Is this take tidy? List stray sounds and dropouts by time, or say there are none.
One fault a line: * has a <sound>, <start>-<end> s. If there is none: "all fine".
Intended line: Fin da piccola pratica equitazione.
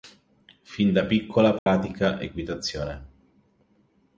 * has a dropout, 1.6-1.7 s